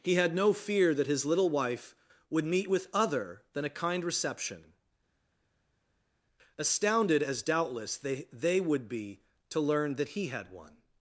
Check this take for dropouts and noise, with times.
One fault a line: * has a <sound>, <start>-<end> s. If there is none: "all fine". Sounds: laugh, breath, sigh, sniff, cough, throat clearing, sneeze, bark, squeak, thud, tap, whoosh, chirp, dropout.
all fine